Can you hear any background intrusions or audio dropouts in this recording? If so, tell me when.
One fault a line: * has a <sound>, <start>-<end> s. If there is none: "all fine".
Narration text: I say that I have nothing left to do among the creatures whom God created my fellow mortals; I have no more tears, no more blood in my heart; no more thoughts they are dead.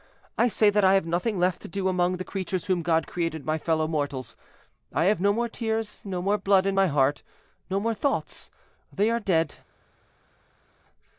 all fine